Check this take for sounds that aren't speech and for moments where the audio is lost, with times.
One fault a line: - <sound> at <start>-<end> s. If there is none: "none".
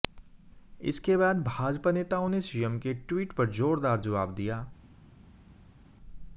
none